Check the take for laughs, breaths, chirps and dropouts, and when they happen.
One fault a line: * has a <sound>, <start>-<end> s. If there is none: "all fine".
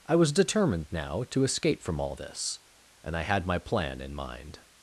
all fine